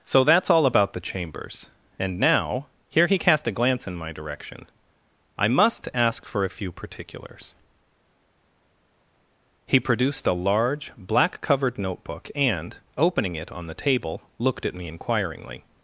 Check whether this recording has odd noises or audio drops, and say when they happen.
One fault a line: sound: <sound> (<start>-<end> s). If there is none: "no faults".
no faults